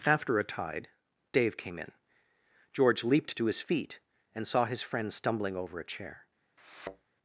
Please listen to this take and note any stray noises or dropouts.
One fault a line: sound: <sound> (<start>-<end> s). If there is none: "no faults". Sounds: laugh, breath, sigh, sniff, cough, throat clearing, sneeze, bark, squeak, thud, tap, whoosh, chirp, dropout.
sound: thud (6.6-7.1 s)